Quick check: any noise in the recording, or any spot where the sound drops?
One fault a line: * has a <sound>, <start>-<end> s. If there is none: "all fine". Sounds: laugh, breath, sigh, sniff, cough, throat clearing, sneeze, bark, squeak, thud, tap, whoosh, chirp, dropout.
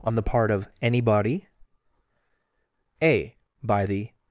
all fine